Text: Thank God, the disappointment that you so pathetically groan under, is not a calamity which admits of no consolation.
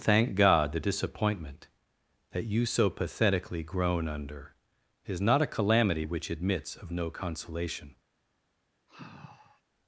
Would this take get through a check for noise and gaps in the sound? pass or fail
fail